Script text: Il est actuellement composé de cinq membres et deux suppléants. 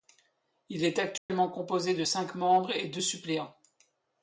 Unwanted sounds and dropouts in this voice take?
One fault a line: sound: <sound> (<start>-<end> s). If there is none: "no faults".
sound: dropout (1.2-1.3 s)